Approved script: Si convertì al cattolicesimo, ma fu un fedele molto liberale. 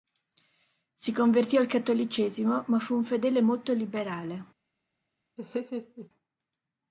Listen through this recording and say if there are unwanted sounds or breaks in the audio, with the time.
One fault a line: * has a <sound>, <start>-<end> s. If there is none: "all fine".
* has a laugh, 5.4-6.1 s